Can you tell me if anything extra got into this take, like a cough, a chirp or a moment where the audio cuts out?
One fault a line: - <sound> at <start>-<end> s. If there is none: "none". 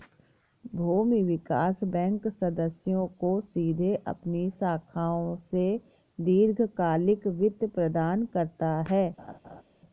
- laugh at 9.2-9.6 s